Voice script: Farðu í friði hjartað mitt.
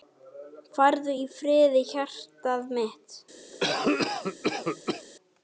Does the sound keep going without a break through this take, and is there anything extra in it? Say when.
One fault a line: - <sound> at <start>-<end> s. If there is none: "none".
- cough at 3.5-5.1 s